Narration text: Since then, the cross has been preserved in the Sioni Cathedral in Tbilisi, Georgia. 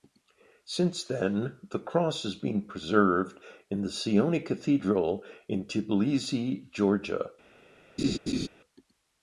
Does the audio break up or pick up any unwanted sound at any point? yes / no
yes